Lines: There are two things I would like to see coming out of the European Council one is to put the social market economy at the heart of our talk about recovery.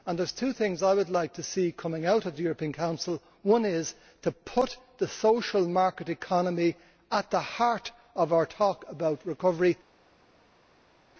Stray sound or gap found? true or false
false